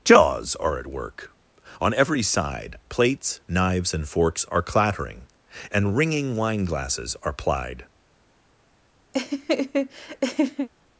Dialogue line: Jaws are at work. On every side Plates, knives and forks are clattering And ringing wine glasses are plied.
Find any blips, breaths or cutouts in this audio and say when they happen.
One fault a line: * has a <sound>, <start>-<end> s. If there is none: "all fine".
* has a laugh, 9.1-10.7 s